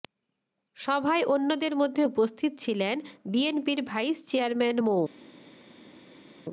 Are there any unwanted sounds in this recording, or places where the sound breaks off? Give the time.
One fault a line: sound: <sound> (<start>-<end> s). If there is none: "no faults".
no faults